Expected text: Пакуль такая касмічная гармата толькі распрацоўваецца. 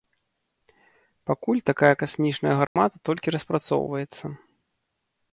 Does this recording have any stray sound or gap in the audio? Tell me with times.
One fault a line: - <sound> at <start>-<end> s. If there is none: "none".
- dropout at 2.7-2.8 s